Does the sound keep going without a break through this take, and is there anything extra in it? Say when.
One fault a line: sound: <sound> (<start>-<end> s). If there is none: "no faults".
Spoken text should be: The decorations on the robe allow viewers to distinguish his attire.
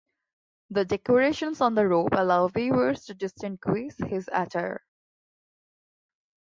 no faults